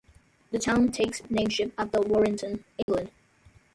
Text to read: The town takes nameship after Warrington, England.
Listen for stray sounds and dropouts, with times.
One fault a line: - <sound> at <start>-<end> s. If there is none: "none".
- dropout at 2.8-2.9 s